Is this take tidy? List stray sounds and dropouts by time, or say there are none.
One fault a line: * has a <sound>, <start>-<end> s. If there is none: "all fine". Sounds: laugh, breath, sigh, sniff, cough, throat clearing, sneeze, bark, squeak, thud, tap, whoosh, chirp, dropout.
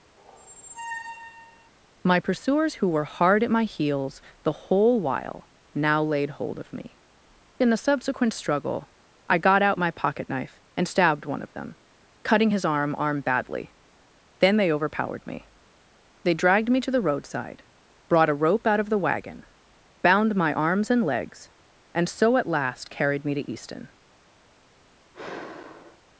* has a squeak, 0.2-1.7 s
* has a sigh, 25.1-26.0 s